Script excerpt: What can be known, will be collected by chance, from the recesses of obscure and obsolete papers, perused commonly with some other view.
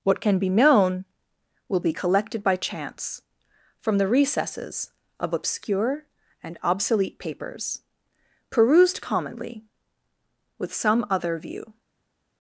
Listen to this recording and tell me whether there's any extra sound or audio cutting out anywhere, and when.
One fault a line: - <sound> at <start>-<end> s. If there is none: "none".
none